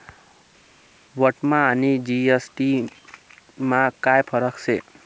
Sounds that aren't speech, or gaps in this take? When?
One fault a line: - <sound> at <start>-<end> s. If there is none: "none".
none